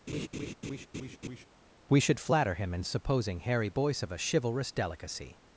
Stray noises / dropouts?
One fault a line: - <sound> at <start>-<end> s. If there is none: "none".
- laugh at 0.1-1.5 s